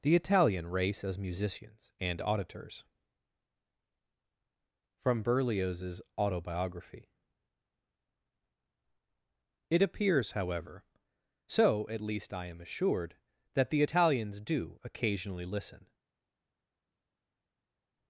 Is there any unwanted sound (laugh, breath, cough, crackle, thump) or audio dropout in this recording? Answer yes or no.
no